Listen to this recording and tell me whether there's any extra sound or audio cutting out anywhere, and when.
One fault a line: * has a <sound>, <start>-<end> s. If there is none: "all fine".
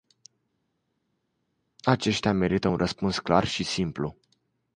all fine